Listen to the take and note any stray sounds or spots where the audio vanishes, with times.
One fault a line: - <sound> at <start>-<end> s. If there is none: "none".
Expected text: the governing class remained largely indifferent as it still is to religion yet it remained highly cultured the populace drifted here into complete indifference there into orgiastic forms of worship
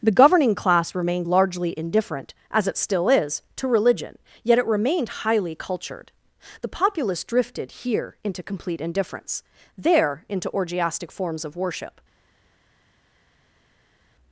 none